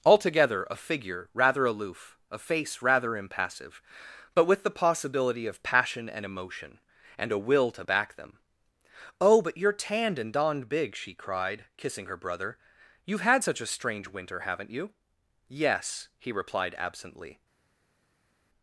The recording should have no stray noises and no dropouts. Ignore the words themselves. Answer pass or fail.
pass